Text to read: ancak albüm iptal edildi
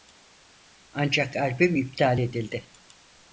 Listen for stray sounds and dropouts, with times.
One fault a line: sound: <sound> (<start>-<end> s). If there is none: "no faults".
no faults